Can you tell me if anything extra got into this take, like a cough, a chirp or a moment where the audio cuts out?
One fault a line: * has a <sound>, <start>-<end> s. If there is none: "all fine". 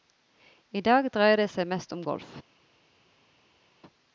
all fine